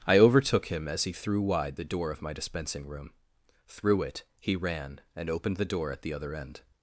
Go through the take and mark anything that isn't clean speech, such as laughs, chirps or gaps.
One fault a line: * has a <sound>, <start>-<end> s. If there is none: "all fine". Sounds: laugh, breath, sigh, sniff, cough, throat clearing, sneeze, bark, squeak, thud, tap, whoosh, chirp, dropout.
all fine